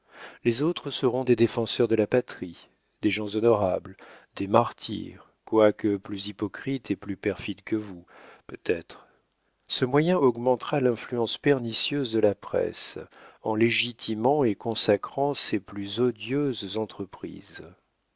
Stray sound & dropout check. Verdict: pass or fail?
pass